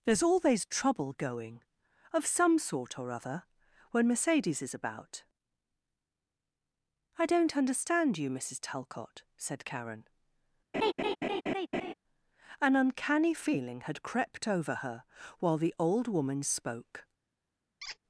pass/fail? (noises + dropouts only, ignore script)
fail